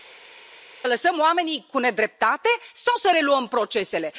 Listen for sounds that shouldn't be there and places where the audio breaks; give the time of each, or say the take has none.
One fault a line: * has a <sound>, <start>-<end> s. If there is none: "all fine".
all fine